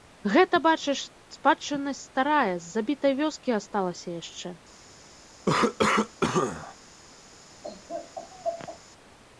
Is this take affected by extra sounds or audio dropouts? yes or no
yes